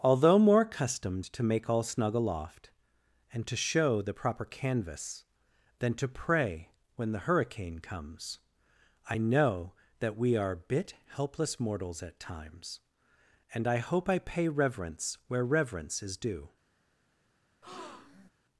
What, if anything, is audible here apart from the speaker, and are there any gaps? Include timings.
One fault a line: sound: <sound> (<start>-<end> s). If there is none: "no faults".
sound: breath (17.6-18.3 s)